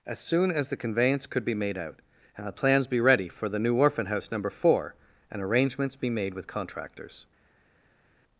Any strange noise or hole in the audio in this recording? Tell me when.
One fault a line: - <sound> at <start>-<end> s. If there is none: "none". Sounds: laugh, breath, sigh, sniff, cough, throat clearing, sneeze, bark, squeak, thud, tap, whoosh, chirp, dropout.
none